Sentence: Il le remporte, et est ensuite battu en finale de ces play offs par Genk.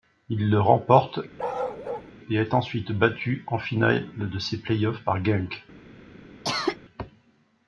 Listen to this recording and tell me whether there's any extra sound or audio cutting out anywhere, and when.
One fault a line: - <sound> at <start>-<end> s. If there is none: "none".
- bark at 1.4-2.1 s
- cough at 6.4-6.8 s